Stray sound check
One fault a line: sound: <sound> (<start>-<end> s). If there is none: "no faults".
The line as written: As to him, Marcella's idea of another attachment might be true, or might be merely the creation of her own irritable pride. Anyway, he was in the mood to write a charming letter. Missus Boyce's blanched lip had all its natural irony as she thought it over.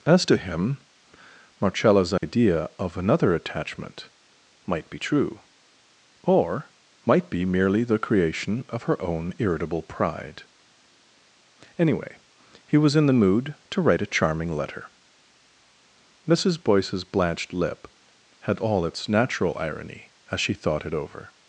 sound: dropout (2.2-2.2 s)